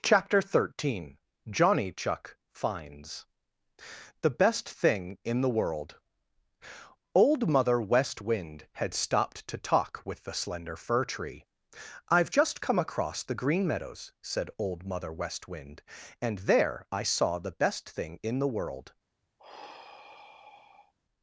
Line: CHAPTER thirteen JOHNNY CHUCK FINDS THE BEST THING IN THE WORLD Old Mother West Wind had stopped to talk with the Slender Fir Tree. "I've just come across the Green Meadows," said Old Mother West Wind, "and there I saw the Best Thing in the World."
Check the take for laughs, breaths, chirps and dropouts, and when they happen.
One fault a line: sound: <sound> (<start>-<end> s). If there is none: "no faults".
sound: sigh (19.4-20.9 s)